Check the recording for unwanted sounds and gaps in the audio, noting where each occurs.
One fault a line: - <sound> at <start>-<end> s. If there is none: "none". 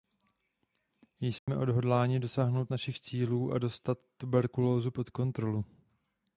- dropout at 1.4-1.5 s